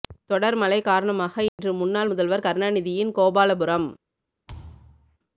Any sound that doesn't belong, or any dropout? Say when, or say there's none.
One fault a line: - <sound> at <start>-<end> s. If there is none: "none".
- dropout at 1.5-1.6 s
- thud at 4.5-5.2 s